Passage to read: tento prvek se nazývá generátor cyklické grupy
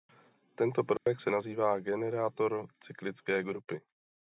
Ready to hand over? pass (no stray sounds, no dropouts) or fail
fail